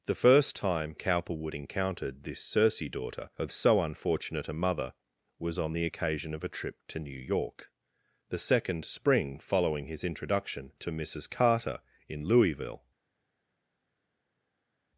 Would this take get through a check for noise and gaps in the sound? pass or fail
pass